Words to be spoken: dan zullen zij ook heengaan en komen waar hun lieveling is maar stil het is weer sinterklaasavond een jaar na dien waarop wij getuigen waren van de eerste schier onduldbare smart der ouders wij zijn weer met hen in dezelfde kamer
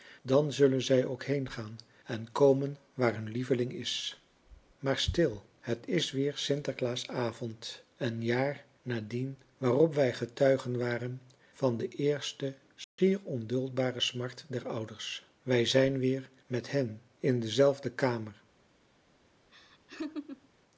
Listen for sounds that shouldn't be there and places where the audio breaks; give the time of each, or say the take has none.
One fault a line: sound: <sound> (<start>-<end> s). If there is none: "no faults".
sound: dropout (12.8-13.0 s)
sound: laugh (19.5-20.5 s)